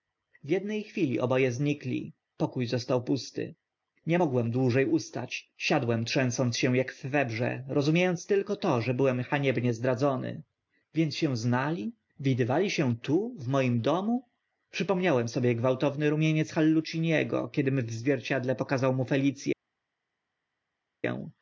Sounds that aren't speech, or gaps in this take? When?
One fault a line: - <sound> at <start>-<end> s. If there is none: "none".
none